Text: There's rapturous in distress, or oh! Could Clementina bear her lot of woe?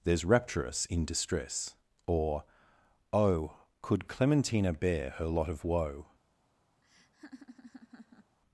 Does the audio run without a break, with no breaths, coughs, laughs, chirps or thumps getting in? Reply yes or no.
no